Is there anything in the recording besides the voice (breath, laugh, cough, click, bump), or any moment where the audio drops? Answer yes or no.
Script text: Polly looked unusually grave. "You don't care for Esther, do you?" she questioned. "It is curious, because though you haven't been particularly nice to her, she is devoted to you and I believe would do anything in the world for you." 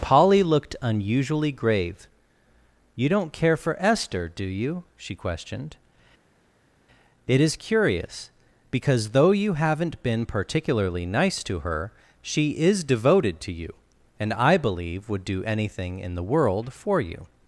no